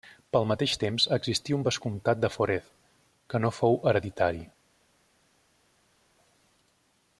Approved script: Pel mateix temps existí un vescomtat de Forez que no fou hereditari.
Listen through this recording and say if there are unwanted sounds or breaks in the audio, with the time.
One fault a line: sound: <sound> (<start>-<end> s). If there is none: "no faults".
no faults